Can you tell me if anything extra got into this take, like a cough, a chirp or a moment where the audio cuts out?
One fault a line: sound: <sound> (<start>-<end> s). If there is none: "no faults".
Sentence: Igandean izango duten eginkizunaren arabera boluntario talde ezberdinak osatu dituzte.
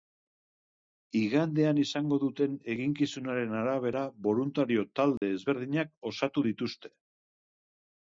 sound: dropout (5.2-5.2 s)